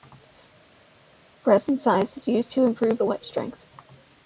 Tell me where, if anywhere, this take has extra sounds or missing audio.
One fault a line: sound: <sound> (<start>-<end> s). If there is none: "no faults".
no faults